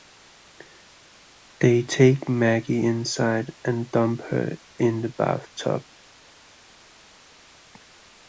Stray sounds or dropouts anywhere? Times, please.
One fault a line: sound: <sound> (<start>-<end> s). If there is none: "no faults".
no faults